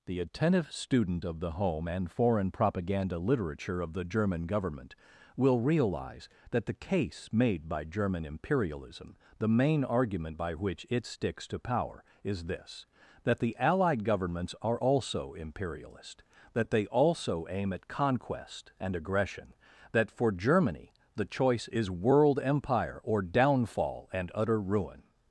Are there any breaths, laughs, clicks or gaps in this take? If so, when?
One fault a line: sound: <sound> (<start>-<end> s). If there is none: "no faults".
no faults